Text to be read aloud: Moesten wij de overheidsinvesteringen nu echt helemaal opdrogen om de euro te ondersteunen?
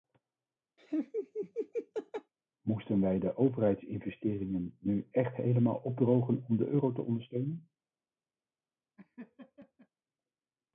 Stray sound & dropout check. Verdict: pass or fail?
fail